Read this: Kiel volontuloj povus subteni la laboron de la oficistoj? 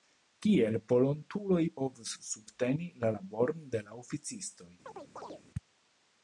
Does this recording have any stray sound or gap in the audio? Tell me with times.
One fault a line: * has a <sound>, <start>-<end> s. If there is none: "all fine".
* has a chirp, 4.9-5.4 s